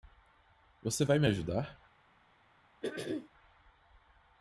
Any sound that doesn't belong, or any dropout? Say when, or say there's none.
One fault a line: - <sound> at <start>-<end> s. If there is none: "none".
- throat clearing at 2.8-3.3 s